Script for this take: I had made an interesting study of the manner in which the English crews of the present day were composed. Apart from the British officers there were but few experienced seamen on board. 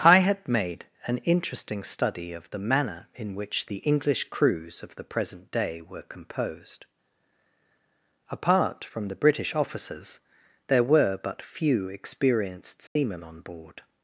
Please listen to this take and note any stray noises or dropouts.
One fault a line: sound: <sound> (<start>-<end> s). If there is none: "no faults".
sound: dropout (12.9-13.0 s)